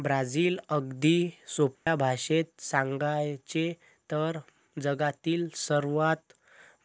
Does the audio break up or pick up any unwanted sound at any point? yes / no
yes